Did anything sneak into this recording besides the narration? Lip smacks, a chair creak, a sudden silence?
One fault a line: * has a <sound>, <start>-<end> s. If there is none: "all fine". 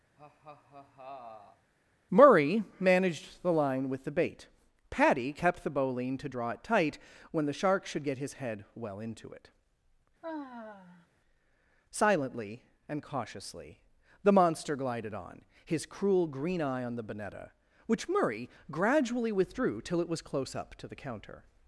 * has a laugh, 0.2-1.7 s
* has a sigh, 10.2-11.1 s